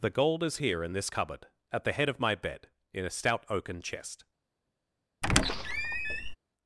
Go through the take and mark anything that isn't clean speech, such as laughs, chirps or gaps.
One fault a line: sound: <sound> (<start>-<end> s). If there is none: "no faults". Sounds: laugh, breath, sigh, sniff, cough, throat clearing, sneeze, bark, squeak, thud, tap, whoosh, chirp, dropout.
sound: squeak (5.2-6.4 s)